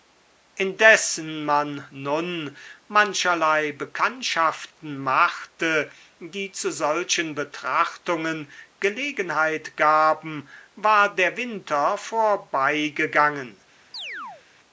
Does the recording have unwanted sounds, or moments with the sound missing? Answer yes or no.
yes